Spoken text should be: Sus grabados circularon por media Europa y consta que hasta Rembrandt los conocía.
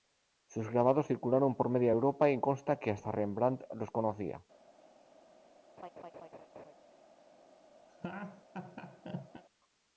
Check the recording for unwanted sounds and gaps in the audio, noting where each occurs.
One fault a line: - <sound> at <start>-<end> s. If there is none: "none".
- laugh at 5.8-6.7 s
- laugh at 7.9-9.4 s